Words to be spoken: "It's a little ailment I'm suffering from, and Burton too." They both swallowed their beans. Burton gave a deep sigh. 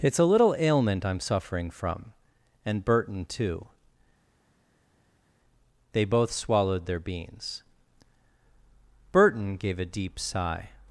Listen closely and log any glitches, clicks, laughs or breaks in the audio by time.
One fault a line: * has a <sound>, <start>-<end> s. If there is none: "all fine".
all fine